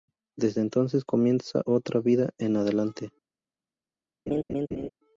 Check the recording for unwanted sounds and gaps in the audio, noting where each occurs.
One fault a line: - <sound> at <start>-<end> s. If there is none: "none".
- laugh at 4.3-4.9 s